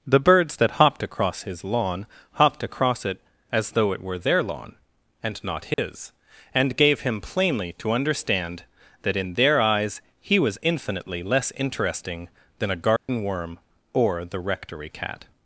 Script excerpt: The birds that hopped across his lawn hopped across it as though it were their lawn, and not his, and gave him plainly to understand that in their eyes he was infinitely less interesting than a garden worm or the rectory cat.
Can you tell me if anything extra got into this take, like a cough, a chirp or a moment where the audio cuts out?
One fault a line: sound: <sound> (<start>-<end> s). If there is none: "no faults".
sound: dropout (5.7-5.8 s)
sound: dropout (13.0-13.1 s)